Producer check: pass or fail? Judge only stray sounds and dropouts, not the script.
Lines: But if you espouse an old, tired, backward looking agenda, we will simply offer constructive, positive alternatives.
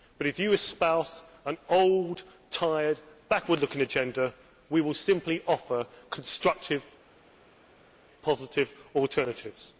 pass